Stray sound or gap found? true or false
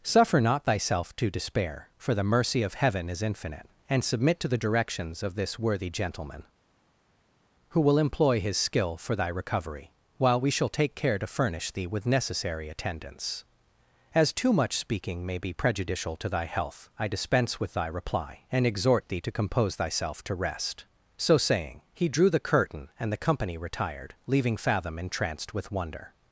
false